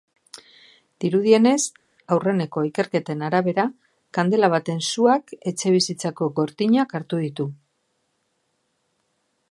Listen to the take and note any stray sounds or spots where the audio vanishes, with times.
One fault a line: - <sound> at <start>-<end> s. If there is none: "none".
none